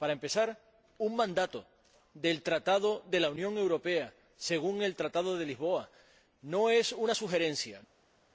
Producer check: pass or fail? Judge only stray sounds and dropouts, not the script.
pass